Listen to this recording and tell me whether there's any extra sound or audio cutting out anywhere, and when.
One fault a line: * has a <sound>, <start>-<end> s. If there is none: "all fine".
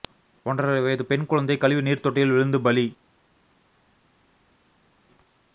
all fine